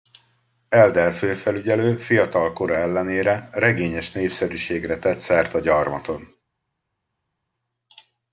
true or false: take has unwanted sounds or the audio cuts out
false